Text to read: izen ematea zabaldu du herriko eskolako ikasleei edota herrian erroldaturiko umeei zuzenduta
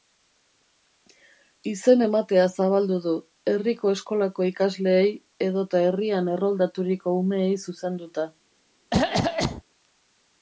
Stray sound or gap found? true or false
true